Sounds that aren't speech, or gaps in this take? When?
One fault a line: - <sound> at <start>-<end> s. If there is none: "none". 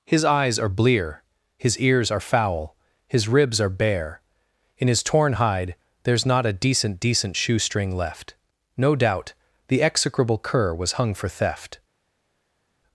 none